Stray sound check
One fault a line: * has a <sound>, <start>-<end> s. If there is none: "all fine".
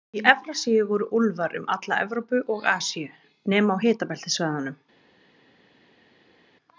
all fine